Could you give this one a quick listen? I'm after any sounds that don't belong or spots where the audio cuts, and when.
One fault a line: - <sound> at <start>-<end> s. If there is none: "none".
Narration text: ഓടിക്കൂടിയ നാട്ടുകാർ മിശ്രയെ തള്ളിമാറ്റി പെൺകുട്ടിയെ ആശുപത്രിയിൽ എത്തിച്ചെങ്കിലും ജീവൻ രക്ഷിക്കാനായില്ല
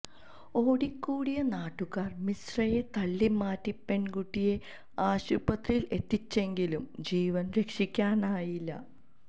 none